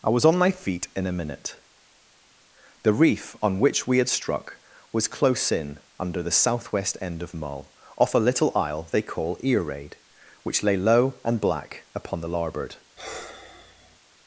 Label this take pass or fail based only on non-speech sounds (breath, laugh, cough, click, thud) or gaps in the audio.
fail